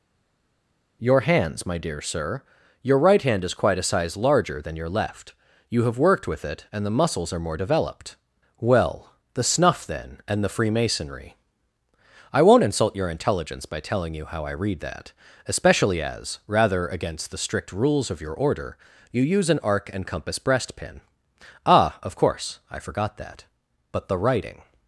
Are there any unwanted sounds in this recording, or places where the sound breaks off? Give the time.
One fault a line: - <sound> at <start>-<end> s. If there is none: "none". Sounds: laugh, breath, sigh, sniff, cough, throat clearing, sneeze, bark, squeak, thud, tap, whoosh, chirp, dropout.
none